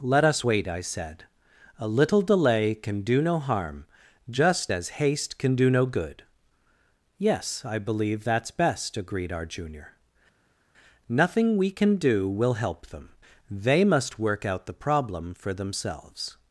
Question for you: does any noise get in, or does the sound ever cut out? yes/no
no